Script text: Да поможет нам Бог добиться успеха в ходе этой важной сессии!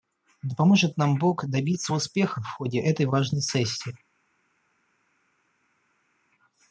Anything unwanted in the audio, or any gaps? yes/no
no